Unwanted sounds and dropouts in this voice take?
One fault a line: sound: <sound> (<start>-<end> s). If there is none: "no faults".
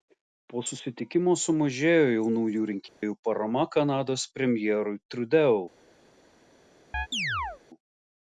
sound: dropout (2.9-3.0 s)
sound: chirp (6.9-7.6 s)